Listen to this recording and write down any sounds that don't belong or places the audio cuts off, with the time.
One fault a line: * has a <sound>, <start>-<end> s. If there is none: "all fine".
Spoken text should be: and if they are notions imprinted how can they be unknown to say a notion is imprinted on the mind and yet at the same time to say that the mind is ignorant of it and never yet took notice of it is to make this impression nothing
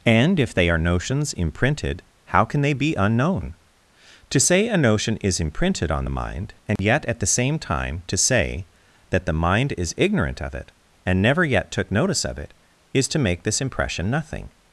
* has a dropout, 6.8-6.8 s